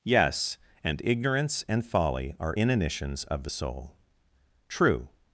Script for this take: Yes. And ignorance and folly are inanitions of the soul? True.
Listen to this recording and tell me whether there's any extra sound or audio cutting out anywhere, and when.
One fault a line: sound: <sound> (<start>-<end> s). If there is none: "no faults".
no faults